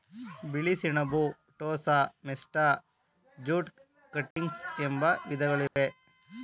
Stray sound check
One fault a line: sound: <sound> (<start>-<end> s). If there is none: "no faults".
sound: dropout (4.3-4.4 s)
sound: dropout (5.7-5.8 s)